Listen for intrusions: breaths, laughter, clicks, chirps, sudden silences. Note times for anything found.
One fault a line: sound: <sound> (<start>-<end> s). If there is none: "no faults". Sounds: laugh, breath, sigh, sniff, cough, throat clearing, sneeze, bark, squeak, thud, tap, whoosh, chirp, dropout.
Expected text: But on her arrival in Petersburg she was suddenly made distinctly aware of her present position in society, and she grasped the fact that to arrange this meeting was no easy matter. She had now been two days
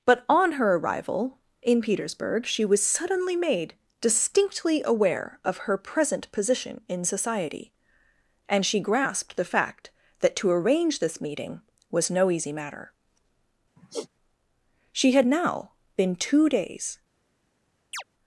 sound: sigh (13.8-14.1 s)
sound: chirp (17.9-18.0 s)